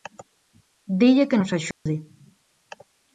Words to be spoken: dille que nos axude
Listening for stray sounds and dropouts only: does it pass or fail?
fail